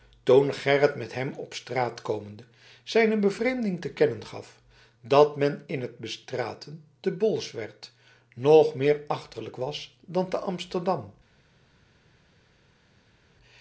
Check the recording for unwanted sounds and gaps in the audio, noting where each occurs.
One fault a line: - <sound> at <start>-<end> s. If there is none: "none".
none